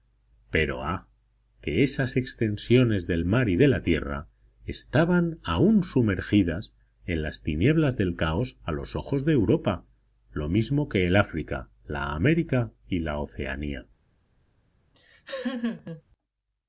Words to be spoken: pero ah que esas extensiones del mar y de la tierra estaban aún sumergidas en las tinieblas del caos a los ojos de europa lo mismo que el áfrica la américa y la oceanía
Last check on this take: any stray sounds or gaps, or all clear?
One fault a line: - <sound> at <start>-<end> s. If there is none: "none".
- laugh at 14.9-16.0 s